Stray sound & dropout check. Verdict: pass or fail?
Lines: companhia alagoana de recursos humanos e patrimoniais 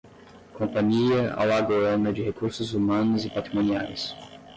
pass